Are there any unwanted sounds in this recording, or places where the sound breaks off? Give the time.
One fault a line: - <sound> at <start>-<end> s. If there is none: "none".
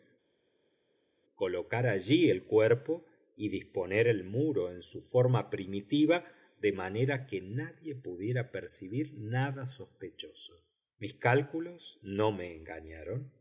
none